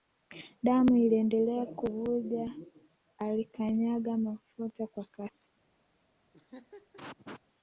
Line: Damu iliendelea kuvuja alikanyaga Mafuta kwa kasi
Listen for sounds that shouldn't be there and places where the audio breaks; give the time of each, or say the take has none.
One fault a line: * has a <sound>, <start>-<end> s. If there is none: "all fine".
* has a laugh, 6.3-7.4 s